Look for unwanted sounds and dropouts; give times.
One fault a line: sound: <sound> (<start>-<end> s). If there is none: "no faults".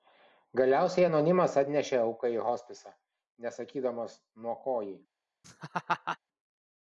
sound: laugh (5.4-6.2 s)